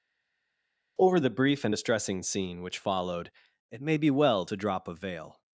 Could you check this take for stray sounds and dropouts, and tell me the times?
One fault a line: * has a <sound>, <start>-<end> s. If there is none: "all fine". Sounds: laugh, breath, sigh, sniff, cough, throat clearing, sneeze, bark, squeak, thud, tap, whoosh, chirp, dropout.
all fine